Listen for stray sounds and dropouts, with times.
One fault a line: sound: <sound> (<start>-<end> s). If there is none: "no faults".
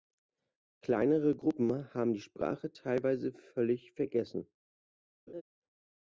sound: laugh (5.3-5.4 s)